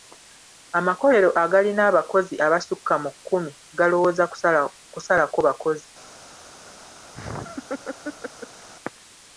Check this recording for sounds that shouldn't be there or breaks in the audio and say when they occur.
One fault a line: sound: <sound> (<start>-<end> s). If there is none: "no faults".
sound: laugh (7.1-8.7 s)